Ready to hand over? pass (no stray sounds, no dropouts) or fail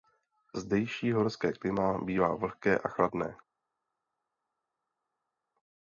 pass